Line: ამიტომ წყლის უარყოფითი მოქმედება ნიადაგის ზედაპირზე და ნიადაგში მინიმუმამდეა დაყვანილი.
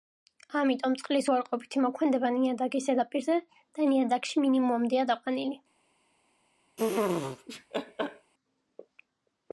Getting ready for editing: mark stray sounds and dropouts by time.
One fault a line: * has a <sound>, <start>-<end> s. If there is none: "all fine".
* has a laugh, 6.8-8.3 s